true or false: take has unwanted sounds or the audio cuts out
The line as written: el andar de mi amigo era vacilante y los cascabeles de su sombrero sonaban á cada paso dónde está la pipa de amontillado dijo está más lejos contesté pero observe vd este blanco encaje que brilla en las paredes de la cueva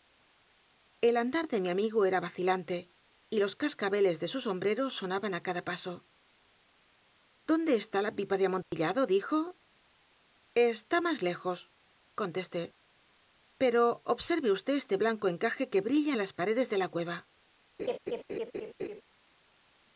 true